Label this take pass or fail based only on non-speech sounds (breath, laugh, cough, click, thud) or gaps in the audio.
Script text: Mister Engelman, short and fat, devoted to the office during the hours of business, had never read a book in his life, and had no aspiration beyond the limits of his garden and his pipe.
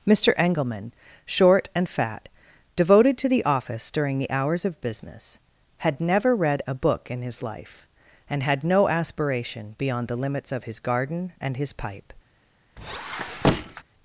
fail